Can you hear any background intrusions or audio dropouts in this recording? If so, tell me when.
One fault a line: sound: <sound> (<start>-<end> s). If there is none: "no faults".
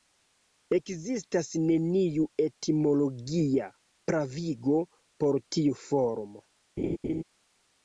sound: laugh (6.8-7.2 s)